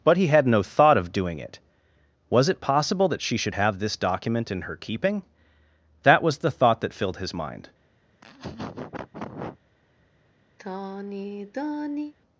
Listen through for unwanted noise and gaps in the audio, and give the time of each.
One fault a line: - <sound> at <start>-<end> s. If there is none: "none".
- laugh at 8.1-9.6 s
- sigh at 10.6-12.1 s